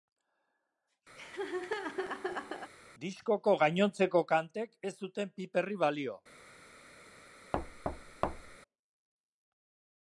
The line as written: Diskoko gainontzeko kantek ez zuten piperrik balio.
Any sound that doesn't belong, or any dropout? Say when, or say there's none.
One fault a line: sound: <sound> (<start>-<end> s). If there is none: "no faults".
sound: laugh (1.2-2.7 s)
sound: thud (7.5-8.6 s)